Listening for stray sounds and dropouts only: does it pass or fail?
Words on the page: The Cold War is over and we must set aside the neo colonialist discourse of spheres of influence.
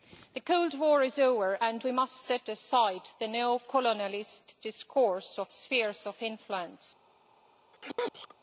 fail